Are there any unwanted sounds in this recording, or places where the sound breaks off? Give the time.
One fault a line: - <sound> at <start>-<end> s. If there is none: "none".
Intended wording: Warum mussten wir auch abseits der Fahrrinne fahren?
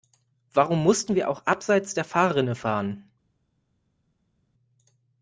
none